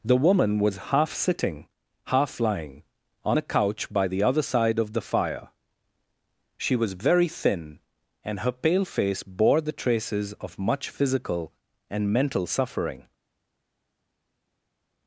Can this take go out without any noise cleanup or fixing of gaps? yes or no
yes